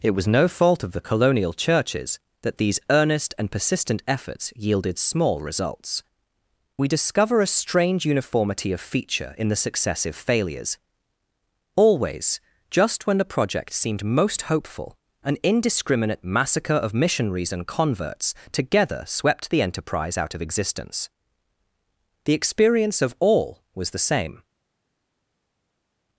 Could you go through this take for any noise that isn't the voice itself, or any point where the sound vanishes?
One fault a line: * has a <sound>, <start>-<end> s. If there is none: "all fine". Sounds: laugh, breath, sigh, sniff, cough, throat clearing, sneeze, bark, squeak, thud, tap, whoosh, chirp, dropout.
all fine